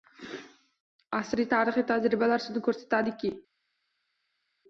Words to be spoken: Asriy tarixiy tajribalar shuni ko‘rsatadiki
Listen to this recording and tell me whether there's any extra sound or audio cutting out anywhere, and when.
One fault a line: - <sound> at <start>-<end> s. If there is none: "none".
none